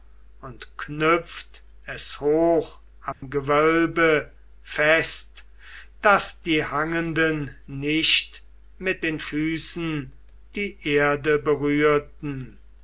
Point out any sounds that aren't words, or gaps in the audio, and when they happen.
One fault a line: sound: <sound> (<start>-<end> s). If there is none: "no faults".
sound: dropout (3.1-3.2 s)